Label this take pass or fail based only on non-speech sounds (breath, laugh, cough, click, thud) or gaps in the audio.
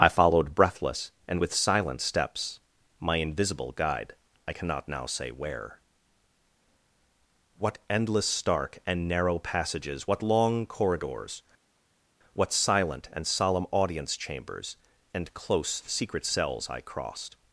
pass